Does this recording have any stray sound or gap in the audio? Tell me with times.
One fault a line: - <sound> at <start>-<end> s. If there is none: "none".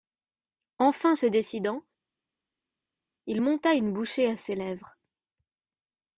none